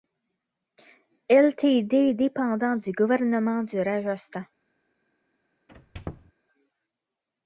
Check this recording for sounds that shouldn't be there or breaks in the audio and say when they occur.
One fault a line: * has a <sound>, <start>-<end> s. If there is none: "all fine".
* has a squeak, 5.7-6.3 s